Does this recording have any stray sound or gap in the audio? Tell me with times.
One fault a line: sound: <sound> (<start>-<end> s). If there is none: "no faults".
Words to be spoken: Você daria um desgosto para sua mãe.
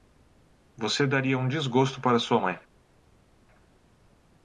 no faults